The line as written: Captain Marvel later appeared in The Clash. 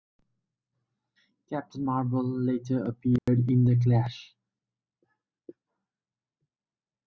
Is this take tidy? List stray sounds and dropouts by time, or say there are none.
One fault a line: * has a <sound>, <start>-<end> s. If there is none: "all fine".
* has a dropout, 3.2-3.3 s